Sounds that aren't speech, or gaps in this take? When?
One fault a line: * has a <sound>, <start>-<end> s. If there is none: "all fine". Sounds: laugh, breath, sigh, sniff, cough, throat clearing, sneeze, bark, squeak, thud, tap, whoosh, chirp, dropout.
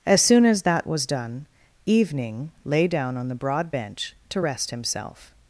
all fine